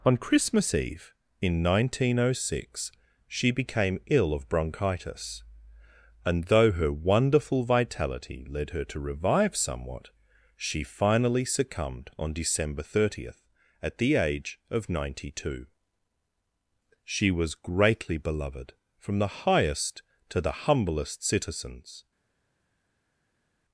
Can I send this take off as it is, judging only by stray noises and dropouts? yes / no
yes